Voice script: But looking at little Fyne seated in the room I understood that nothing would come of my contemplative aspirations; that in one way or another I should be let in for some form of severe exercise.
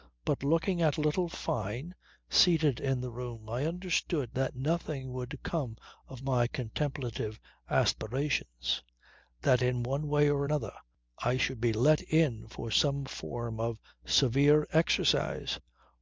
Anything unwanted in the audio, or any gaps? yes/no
no